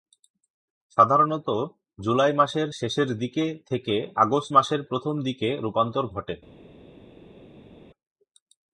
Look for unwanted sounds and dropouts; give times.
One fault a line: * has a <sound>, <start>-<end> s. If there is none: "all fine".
all fine